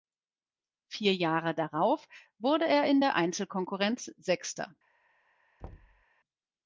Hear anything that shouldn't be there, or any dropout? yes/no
yes